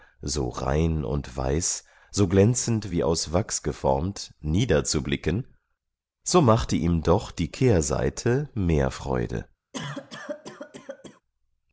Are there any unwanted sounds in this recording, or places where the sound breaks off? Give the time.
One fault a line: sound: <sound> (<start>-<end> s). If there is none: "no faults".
sound: cough (9.7-11.2 s)